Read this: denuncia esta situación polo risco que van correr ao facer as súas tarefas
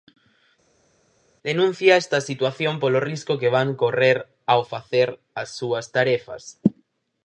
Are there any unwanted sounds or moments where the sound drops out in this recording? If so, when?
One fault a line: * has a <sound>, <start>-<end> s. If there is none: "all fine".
all fine